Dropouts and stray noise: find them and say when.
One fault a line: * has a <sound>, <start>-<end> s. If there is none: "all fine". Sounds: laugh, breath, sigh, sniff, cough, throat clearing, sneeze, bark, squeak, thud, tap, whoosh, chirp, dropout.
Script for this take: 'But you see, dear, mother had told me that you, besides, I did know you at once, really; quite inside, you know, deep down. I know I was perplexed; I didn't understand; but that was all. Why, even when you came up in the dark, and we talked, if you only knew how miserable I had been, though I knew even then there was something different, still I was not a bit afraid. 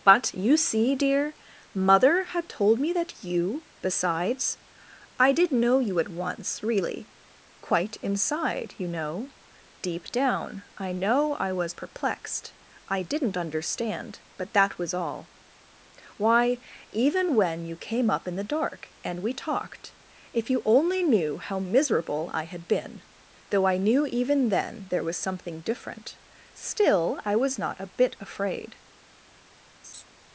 * has a laugh, 29.8-30.1 s